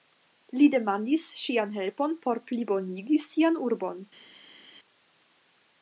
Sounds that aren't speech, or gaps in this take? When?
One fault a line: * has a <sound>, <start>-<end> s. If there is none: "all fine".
all fine